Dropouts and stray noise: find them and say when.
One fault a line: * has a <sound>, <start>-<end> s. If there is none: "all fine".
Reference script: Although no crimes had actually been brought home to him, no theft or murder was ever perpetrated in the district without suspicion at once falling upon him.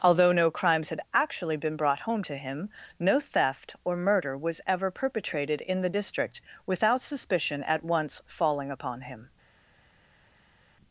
all fine